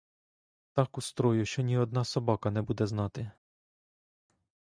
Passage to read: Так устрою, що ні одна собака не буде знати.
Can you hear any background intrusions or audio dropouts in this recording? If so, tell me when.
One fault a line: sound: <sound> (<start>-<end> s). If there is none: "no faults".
no faults